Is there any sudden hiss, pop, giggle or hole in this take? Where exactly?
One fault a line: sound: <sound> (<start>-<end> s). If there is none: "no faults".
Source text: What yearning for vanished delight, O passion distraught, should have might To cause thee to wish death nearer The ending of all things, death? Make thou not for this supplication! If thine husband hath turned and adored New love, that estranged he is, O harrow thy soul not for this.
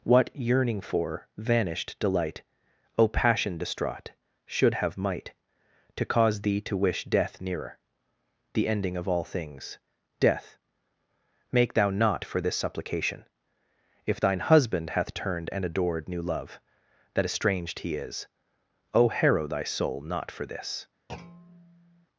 sound: thud (21.1-22.1 s)